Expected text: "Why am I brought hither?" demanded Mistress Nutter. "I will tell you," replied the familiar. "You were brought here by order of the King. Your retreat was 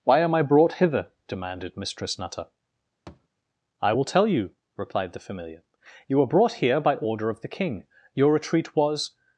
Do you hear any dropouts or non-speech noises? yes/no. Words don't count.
yes